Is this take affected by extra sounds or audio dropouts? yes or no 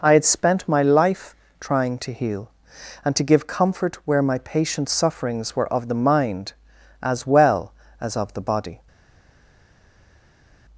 no